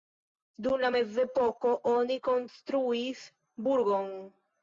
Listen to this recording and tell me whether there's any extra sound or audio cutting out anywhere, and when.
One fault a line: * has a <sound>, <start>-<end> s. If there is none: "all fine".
all fine